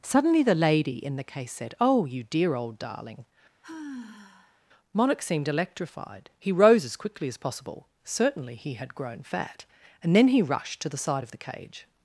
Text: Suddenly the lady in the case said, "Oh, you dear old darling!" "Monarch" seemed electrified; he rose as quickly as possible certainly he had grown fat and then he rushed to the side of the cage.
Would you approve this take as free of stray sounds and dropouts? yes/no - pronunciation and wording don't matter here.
no